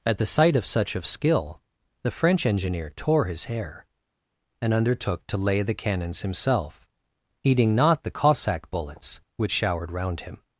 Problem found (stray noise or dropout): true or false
false